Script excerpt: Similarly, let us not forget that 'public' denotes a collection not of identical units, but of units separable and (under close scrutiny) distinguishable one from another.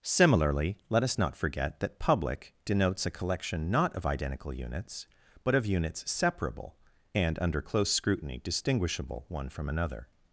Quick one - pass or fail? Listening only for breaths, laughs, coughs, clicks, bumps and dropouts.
pass